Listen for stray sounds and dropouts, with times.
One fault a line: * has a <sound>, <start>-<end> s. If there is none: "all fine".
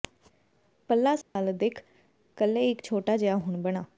* has a dropout, 1.2-1.4 s